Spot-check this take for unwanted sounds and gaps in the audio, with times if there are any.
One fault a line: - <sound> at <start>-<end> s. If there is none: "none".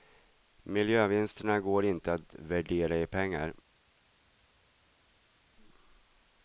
none